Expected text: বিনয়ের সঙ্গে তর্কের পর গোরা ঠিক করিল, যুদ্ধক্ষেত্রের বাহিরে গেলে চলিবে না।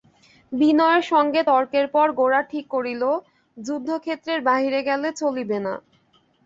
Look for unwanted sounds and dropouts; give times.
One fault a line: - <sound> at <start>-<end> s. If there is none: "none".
none